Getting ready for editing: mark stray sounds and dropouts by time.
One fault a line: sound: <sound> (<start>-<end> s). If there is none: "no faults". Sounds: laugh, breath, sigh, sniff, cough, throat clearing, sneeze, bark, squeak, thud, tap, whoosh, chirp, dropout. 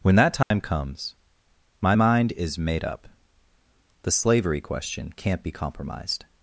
sound: dropout (0.4-0.5 s)